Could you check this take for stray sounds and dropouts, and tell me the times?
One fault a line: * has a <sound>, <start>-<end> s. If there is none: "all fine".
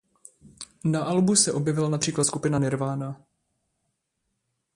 all fine